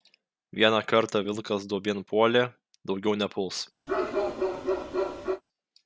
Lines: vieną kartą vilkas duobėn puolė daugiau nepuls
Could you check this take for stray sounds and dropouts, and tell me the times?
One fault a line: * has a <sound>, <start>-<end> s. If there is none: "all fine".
* has a bark, 3.9-5.4 s